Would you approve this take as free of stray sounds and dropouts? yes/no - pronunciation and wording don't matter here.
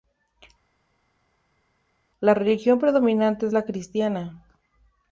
yes